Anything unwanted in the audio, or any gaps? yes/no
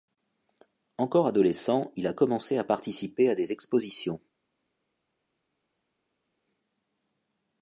no